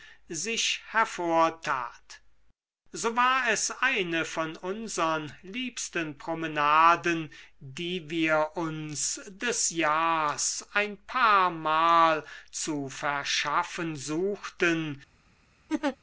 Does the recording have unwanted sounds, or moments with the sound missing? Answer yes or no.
yes